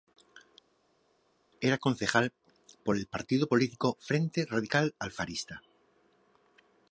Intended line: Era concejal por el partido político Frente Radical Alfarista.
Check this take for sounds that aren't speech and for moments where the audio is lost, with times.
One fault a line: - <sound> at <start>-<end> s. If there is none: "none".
none